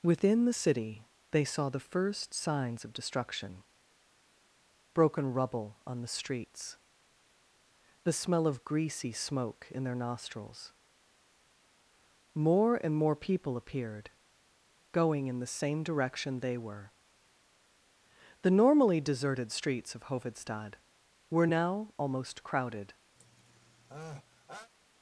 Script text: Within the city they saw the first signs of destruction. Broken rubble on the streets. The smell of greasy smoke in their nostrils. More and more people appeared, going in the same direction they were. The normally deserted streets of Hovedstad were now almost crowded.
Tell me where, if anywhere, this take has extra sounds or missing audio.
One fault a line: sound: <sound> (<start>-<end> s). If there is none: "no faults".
sound: sneeze (23.2-24.7 s)